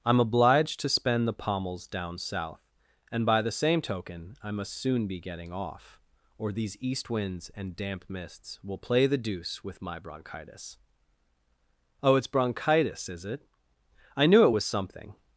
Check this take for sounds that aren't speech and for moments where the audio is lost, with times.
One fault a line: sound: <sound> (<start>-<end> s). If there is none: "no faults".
no faults